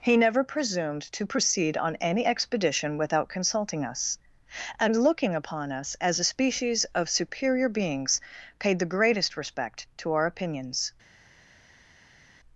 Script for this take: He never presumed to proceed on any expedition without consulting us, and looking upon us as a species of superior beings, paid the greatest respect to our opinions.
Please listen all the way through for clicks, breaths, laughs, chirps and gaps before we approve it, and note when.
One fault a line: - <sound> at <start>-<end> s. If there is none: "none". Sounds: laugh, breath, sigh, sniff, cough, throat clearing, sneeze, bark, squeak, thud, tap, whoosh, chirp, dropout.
none